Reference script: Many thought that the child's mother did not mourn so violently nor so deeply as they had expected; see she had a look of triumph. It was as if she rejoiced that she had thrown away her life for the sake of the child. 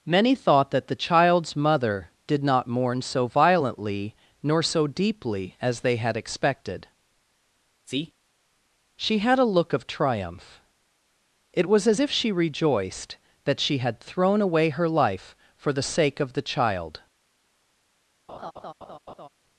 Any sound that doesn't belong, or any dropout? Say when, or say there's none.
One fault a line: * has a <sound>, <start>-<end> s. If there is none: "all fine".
* has a laugh, 18.3-19.3 s